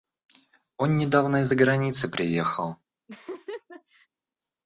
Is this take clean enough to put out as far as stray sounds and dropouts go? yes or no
no